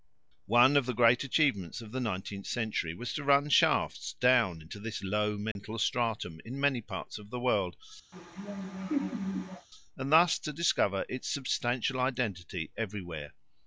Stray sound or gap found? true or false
true